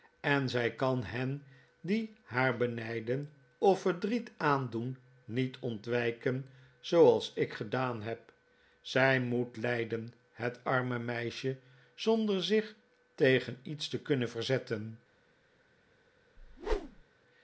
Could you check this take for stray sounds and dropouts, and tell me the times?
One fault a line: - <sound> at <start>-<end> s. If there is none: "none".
- whoosh at 16.4-17.0 s